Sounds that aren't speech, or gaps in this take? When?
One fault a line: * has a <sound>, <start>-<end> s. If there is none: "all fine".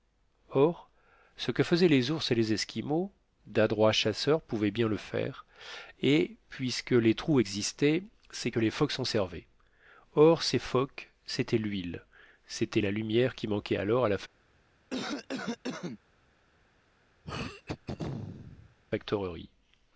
* has a cough, 14.9-16.0 s
* has a throat clearing, 17.2-18.8 s